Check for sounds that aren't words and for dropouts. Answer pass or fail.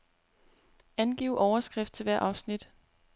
pass